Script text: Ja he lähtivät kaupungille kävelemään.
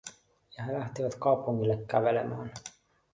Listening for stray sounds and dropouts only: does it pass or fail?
pass